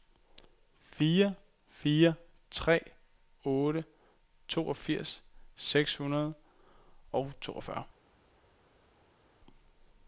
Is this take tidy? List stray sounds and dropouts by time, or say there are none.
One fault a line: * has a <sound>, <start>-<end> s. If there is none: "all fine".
all fine